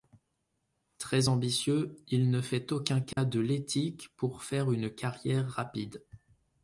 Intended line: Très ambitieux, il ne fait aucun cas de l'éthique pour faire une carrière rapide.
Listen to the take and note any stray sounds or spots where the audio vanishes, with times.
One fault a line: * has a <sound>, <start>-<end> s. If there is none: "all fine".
* has a dropout, 3.1-3.2 s